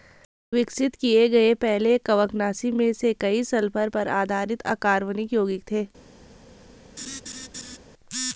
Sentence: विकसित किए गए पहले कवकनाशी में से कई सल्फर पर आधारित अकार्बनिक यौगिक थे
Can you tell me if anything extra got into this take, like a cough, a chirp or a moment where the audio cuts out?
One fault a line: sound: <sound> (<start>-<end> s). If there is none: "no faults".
sound: laugh (7.0-7.8 s)